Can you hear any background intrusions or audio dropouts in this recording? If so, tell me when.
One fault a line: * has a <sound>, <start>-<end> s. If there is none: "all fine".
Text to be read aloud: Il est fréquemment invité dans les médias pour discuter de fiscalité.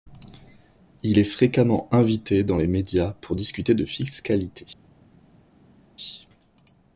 all fine